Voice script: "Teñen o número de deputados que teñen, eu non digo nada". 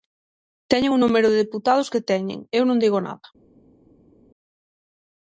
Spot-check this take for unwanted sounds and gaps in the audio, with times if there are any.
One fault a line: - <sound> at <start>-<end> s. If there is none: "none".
none